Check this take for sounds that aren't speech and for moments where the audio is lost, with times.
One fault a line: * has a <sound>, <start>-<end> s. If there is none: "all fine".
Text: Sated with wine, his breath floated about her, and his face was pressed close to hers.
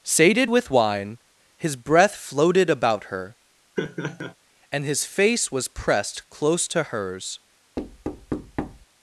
* has a laugh, 3.8-4.3 s
* has a thud, 7.8-8.9 s